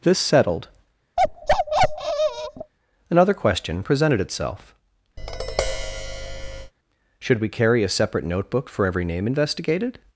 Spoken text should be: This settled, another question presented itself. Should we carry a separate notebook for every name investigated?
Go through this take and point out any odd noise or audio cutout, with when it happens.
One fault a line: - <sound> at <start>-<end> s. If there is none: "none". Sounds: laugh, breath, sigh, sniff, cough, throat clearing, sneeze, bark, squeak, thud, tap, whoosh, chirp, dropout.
- bark at 1.2-2.7 s
- tap at 5.2-6.7 s